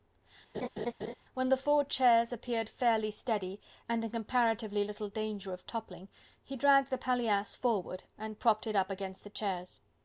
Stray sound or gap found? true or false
true